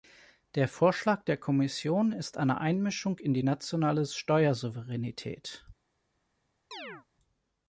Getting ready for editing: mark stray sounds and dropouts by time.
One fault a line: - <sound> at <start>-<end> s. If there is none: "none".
- chirp at 6.7-7.1 s